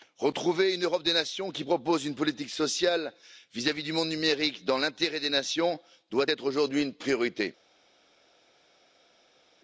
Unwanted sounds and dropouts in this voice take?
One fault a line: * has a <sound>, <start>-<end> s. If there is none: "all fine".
all fine